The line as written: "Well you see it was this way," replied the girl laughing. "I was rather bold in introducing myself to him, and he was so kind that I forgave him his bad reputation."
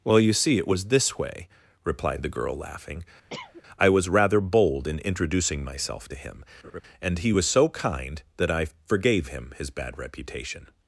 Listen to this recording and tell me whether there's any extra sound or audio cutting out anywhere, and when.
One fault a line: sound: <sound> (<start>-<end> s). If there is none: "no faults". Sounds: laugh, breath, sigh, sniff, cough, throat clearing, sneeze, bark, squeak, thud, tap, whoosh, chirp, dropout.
sound: cough (3.3-3.6 s)
sound: laugh (6.6-6.8 s)